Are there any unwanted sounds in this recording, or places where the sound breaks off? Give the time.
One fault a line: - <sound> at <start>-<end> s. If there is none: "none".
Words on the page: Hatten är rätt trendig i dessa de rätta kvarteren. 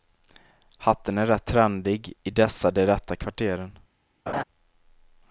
- laugh at 4.3-4.4 s